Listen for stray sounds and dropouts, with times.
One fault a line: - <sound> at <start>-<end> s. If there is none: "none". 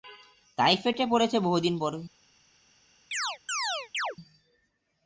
- chirp at 3.1-4.2 s